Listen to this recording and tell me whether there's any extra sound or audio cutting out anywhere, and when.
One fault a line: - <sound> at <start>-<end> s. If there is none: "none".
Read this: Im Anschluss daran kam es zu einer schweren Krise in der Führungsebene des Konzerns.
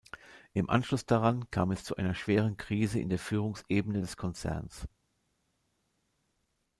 none